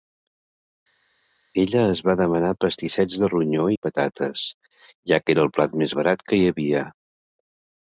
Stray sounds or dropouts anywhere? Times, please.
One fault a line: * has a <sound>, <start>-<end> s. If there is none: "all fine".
all fine